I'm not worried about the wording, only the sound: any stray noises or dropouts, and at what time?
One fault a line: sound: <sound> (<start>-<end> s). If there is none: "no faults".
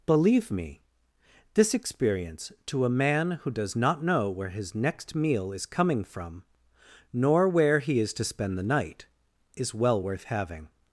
no faults